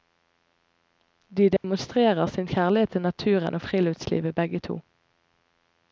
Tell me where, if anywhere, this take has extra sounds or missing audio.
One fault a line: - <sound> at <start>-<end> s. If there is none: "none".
- dropout at 1.6-1.6 s